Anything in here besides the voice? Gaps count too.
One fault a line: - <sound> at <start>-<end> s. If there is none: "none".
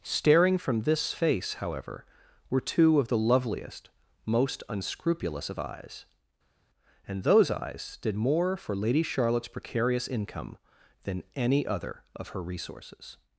none